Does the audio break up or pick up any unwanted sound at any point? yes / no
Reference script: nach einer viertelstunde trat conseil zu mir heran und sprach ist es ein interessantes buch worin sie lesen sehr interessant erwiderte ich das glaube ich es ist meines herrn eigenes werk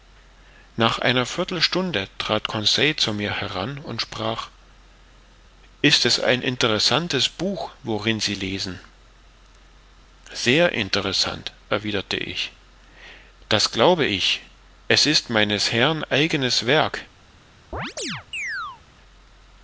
yes